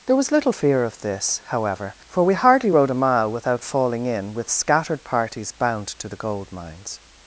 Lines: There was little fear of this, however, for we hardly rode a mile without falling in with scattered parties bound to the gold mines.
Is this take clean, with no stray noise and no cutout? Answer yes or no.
yes